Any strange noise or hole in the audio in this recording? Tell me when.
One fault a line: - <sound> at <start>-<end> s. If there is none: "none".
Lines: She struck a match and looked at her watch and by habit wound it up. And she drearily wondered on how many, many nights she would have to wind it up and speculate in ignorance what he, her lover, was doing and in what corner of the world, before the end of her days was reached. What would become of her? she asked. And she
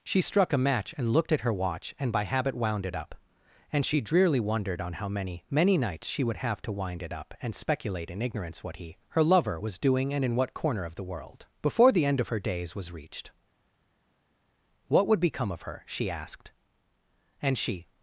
none